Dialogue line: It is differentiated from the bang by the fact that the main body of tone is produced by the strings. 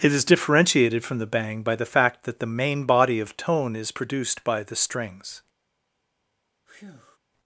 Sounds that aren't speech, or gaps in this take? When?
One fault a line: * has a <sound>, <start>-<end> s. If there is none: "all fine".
* has a breath, 6.7-7.2 s